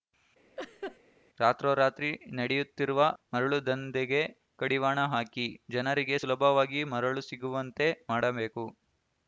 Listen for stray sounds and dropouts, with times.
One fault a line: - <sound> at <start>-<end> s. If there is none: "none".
- laugh at 0.6-1.0 s